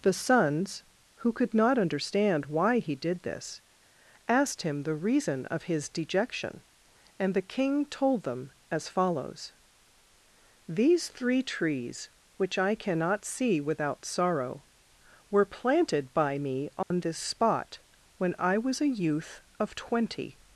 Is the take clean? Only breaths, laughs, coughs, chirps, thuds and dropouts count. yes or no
no